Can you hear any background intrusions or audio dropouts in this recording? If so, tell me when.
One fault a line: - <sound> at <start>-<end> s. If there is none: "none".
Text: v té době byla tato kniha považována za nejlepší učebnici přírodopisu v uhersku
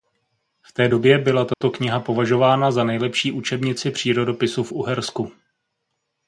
- dropout at 1.5-1.6 s